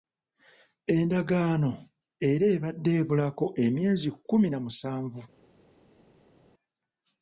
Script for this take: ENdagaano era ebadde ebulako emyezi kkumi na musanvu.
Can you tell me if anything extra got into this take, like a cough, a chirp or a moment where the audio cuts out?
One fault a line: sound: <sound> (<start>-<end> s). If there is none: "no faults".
no faults